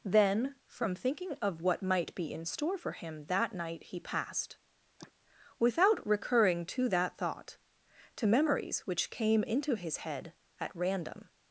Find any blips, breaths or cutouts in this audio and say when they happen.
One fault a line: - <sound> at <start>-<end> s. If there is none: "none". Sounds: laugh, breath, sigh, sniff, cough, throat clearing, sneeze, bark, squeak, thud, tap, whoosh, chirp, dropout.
- sneeze at 5.0-5.1 s